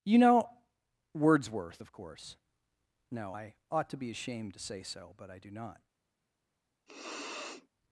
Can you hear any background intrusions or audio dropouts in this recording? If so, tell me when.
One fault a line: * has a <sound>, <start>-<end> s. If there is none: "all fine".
* has a sniff, 6.9-7.7 s